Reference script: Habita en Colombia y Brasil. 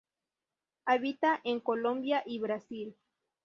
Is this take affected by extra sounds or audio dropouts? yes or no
no